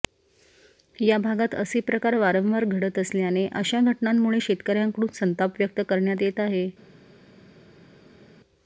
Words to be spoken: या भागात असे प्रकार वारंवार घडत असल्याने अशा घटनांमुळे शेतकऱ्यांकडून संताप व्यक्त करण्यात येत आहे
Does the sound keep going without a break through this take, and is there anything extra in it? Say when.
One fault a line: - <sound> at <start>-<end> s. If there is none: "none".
none